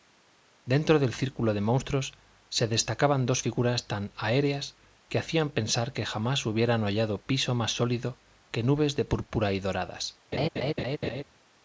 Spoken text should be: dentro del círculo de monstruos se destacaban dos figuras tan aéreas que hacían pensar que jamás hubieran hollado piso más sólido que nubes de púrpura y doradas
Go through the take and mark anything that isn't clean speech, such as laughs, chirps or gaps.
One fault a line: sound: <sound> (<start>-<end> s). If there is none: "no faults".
sound: laugh (10.3-11.2 s)